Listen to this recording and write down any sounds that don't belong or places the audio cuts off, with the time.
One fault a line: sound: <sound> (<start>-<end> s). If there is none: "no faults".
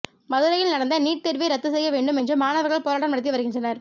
no faults